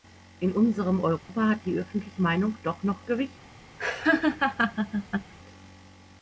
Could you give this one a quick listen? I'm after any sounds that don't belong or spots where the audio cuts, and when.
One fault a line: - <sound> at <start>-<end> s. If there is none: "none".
- dropout at 1.2-1.3 s
- laugh at 3.8-5.3 s